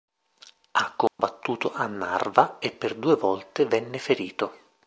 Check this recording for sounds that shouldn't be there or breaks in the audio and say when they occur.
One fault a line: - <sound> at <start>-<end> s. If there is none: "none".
- dropout at 1.1-1.2 s